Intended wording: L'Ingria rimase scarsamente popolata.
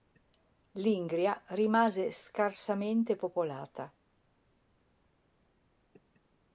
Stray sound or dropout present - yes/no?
no